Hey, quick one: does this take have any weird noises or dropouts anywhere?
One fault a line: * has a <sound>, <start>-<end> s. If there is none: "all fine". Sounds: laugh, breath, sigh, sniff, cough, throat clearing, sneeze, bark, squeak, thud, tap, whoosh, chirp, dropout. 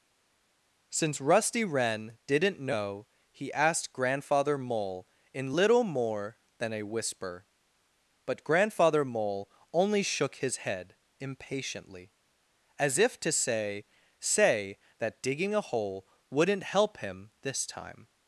all fine